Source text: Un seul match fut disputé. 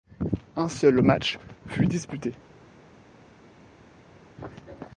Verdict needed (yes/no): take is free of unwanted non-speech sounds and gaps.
yes